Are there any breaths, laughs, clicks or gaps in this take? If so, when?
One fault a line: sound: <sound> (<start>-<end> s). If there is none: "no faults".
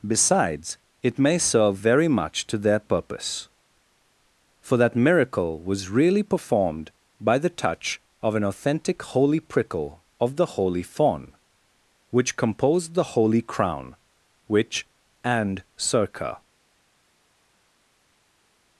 no faults